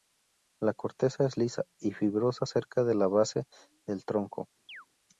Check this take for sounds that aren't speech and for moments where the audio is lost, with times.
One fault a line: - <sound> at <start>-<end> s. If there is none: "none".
- chirp at 4.7-4.9 s